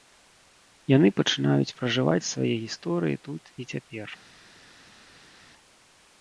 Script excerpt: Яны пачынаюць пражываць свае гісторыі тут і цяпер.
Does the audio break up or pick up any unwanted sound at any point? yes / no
no